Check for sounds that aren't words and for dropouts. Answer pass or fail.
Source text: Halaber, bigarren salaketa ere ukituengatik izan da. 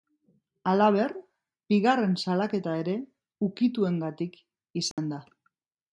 fail